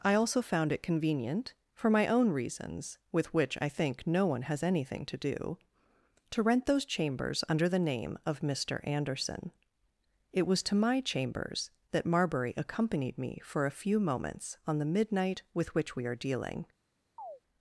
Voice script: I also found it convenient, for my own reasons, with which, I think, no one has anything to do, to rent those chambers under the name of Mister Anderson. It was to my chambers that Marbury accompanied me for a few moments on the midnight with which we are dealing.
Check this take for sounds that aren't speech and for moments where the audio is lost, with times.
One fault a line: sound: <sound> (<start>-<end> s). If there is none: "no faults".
sound: chirp (17.2-17.4 s)